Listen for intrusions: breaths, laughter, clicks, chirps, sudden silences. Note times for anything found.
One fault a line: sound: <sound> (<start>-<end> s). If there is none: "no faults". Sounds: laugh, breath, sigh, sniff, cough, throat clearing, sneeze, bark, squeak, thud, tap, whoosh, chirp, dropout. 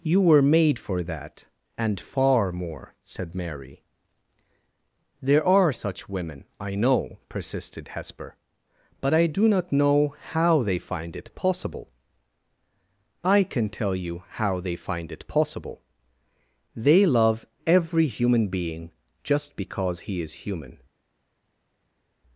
no faults